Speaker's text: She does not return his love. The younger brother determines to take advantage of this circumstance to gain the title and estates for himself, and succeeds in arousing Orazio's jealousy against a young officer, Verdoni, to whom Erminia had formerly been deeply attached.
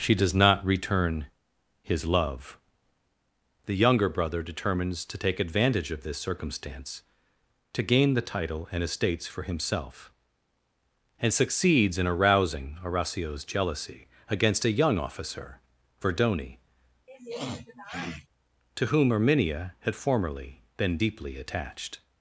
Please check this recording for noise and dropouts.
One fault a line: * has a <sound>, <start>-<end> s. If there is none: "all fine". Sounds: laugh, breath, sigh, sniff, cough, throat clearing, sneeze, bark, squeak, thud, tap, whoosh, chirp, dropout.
* has a sniff, 17.1-18.3 s